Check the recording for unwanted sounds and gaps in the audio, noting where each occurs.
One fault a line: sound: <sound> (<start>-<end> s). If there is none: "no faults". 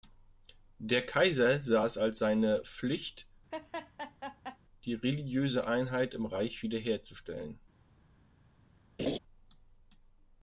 sound: laugh (3.5-4.6 s)
sound: laugh (9.0-9.2 s)